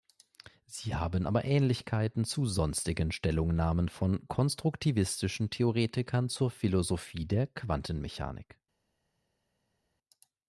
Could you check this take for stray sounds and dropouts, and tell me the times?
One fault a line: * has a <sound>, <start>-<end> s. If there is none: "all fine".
all fine